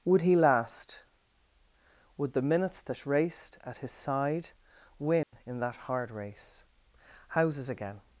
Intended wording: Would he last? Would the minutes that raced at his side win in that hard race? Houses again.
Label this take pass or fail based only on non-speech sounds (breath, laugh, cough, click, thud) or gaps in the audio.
fail